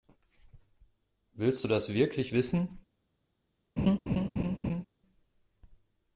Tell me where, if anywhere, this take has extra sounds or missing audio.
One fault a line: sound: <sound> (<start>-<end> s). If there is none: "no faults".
sound: laugh (3.8-4.9 s)